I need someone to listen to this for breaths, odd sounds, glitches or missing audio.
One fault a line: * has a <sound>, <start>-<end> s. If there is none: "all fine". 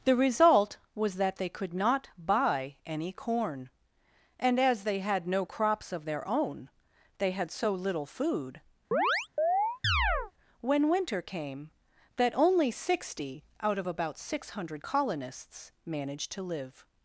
* has a chirp, 8.9-10.3 s